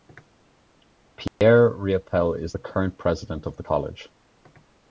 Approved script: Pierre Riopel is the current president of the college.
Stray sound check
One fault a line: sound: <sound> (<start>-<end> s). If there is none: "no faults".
sound: dropout (1.3-1.4 s)